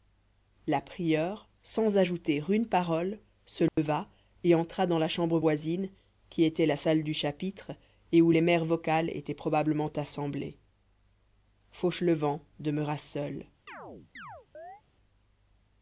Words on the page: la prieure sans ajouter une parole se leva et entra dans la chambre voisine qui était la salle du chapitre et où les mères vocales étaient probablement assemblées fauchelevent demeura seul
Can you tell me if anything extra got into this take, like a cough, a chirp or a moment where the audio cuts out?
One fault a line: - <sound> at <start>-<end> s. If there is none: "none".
- dropout at 3.7-3.8 s
- chirp at 13.7-14.8 s